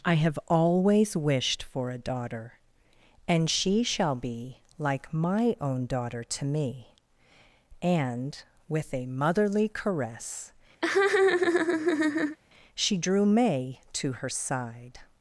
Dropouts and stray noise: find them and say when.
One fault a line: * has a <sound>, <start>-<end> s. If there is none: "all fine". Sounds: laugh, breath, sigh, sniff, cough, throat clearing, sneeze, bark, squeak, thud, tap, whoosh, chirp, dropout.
* has a laugh, 10.8-12.4 s